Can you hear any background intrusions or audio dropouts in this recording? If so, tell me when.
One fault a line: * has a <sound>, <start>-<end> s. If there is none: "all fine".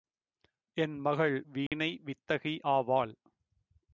* has a dropout, 1.7-1.7 s